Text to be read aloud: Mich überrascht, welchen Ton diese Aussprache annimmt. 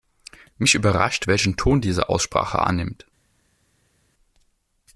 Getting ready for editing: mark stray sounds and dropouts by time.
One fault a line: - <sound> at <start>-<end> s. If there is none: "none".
none